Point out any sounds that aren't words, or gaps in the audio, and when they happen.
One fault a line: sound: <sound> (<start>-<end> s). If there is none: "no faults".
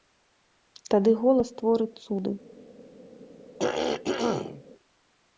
sound: throat clearing (3.6-4.6 s)